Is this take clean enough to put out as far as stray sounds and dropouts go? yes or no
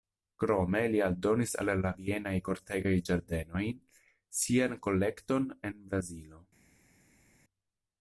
yes